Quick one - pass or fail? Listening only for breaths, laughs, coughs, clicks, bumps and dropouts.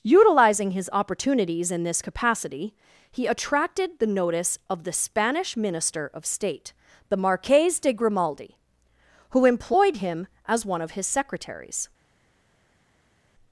pass